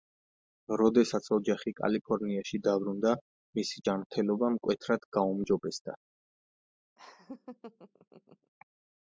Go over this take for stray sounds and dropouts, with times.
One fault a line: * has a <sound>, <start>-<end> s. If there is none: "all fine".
* has a laugh, 7.0-8.5 s